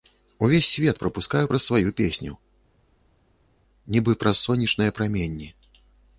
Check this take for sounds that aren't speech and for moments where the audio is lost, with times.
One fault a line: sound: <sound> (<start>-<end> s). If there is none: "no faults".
no faults